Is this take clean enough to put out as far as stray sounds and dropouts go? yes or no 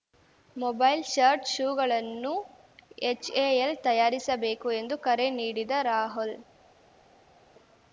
yes